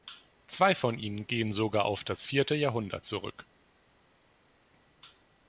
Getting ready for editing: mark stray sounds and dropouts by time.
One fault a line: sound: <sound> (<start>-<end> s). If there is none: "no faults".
no faults